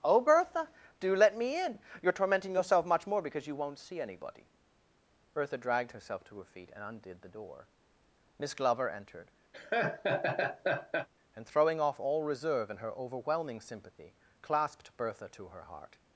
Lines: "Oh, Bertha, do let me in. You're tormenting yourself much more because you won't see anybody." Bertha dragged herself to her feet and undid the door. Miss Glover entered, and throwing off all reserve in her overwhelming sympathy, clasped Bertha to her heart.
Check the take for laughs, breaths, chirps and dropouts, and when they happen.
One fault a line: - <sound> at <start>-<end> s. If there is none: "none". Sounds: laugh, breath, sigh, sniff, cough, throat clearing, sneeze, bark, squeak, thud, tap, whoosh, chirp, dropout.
- laugh at 9.5-11.1 s